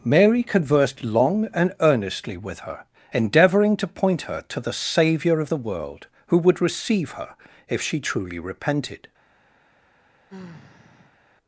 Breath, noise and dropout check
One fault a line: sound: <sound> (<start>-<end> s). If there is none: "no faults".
sound: sigh (10.3-11.2 s)